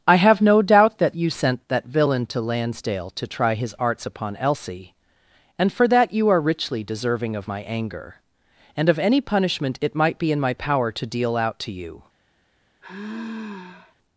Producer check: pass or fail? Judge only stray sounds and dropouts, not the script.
fail